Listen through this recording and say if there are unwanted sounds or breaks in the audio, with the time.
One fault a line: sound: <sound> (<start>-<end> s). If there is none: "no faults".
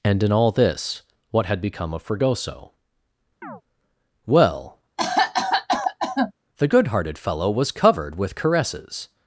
sound: chirp (3.4-3.6 s)
sound: cough (5.0-6.3 s)